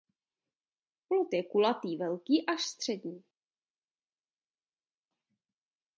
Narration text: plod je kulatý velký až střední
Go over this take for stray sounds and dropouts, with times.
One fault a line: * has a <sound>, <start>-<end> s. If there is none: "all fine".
all fine